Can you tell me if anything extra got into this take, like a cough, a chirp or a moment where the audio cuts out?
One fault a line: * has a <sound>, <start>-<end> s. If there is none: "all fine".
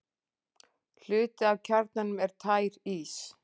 all fine